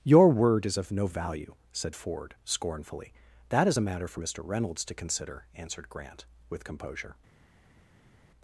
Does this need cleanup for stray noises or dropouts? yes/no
no